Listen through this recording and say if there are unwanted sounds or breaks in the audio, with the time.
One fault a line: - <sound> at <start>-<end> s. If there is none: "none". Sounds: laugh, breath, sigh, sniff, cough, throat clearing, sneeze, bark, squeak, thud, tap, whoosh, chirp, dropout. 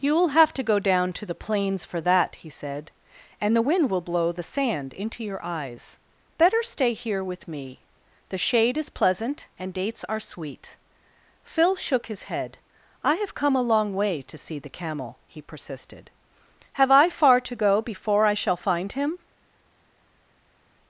none